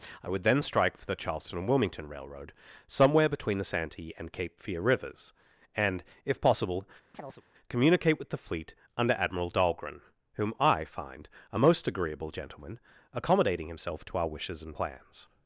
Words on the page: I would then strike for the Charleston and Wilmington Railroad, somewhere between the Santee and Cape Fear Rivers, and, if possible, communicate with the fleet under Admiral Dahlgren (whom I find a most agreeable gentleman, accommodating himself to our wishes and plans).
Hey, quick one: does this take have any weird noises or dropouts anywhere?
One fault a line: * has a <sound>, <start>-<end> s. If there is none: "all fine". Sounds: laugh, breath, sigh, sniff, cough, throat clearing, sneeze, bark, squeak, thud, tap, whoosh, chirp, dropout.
* has a chirp, 7.1-7.4 s